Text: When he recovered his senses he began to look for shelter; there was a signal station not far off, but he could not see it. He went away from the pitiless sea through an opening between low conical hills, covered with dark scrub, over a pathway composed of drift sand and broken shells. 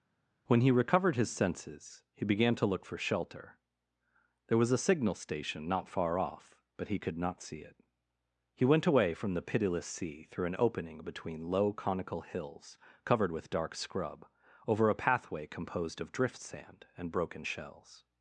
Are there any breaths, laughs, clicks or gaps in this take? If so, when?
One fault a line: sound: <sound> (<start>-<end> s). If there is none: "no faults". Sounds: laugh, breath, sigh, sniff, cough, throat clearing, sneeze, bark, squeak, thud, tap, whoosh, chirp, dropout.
no faults